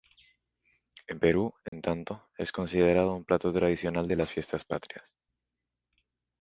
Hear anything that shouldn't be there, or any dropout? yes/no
yes